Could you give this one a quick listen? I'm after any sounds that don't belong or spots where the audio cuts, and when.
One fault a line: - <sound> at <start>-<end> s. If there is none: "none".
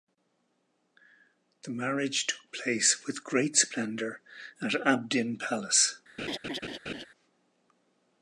- laugh at 6.2-7.1 s